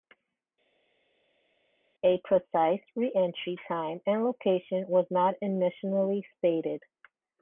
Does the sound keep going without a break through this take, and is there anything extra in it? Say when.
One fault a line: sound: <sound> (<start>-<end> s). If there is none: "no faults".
no faults